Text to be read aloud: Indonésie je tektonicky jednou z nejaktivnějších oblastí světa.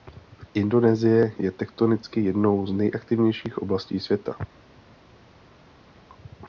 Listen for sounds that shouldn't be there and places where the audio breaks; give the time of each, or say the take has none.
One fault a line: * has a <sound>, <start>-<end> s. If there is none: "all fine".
all fine